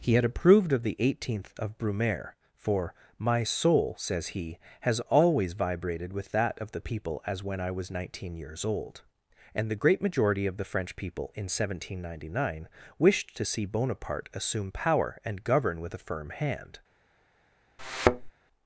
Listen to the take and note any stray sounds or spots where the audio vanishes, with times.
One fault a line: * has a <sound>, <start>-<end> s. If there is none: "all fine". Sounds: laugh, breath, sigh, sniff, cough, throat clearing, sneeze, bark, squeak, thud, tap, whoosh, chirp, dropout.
* has a thud, 17.8-18.3 s